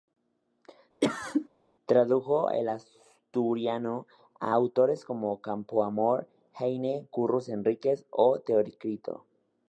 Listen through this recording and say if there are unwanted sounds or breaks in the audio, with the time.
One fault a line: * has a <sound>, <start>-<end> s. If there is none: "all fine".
* has a cough, 1.0-1.5 s